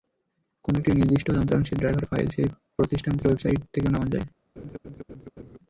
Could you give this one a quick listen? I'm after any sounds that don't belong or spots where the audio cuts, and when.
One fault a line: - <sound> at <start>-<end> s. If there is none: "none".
- laugh at 4.6-5.6 s